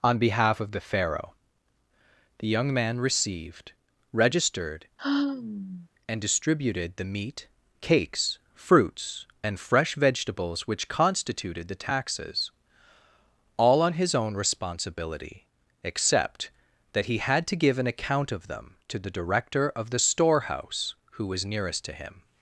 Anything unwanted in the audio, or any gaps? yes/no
yes